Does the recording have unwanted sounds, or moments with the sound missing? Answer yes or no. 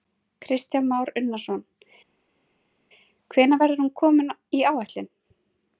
no